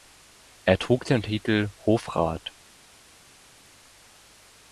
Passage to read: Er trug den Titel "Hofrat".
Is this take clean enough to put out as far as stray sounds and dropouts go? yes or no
yes